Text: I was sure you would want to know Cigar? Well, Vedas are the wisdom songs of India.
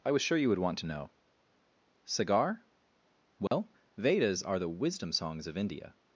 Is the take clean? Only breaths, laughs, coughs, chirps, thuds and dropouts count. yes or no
no